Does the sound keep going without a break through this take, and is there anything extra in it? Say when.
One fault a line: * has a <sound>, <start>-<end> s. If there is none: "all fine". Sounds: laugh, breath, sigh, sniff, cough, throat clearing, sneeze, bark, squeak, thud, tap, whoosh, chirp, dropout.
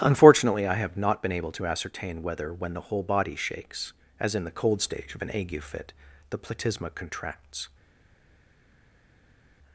all fine